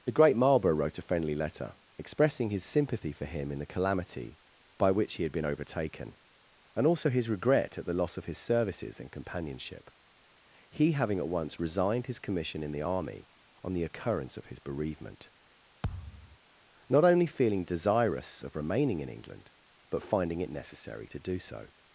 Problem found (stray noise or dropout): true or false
true